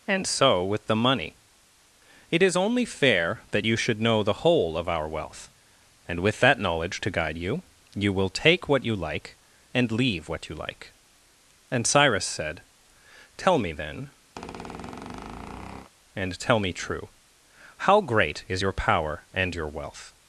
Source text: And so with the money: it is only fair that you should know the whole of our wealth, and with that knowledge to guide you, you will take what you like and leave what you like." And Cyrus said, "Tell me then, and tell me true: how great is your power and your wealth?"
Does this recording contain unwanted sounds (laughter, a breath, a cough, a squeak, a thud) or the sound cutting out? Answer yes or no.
yes